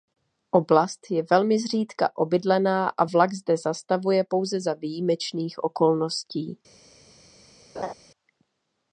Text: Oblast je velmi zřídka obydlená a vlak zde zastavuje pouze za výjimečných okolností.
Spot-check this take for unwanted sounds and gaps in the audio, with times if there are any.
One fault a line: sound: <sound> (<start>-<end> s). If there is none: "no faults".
sound: laugh (7.7-7.9 s)